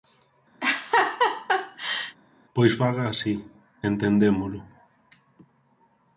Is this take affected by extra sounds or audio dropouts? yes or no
yes